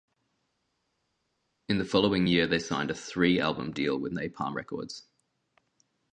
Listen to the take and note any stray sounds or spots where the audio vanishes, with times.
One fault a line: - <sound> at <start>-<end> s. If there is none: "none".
none